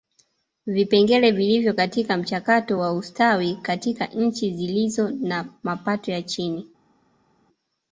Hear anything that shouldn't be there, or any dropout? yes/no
no